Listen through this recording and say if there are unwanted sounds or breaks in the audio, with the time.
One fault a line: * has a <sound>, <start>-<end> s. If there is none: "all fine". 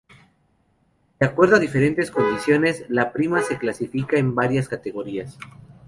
all fine